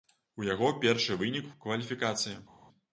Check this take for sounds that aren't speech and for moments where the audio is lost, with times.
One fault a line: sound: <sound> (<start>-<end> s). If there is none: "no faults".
no faults